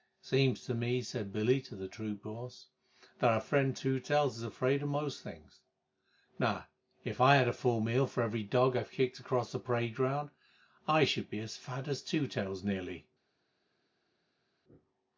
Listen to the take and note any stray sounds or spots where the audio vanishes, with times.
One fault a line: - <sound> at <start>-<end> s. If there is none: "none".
none